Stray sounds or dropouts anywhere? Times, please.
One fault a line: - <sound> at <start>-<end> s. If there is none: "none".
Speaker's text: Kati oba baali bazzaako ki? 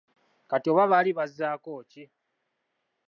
none